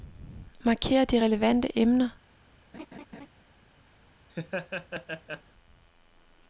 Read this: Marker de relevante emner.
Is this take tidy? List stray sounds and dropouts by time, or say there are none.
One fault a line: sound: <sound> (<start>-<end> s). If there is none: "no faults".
sound: laugh (2.7-3.3 s)
sound: laugh (4.3-5.4 s)